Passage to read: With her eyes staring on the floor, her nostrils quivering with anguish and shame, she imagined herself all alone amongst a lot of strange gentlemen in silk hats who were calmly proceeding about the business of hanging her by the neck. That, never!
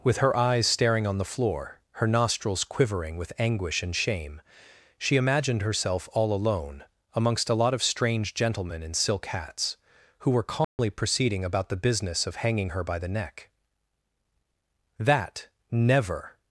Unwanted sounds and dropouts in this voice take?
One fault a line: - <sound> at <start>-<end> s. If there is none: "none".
- dropout at 10.6-10.8 s